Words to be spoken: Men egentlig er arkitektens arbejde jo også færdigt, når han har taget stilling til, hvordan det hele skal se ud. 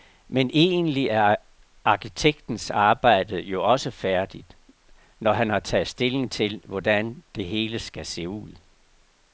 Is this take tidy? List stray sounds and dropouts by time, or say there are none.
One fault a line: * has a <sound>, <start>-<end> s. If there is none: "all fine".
all fine